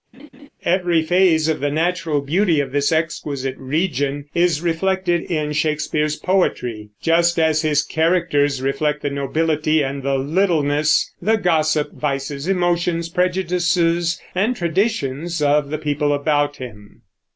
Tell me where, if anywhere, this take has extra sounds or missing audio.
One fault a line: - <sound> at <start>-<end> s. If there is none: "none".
- laugh at 0.1-0.5 s